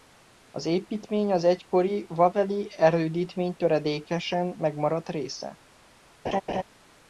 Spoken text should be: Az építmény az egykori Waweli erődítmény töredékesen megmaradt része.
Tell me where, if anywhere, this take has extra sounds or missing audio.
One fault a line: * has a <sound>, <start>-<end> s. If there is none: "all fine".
* has a laugh, 6.2-6.6 s